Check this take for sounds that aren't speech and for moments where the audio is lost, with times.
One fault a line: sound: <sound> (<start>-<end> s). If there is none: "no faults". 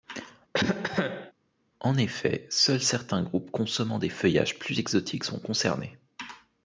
sound: cough (0.5-1.3 s)